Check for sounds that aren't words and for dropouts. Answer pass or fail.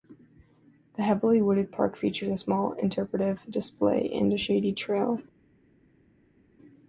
pass